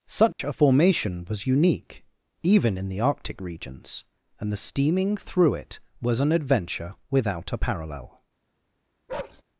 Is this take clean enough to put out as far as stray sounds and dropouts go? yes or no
no